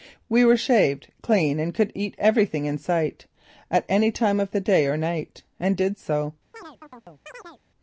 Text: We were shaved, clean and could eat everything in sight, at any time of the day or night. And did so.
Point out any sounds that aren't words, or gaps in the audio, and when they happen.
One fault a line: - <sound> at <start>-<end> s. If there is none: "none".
- chirp at 6.5-7.6 s